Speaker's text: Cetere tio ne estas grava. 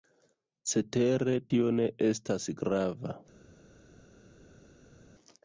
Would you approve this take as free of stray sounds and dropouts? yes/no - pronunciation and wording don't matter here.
yes